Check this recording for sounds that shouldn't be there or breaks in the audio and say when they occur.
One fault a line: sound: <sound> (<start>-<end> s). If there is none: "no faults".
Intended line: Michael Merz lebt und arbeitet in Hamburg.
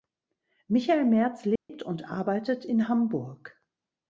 sound: dropout (1.6-1.7 s)